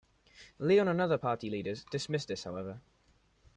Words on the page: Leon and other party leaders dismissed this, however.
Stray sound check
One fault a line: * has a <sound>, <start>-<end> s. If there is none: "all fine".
all fine